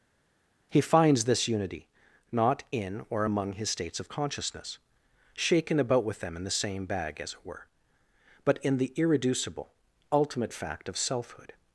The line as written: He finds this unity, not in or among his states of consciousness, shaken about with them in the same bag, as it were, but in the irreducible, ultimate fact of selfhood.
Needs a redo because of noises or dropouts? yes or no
no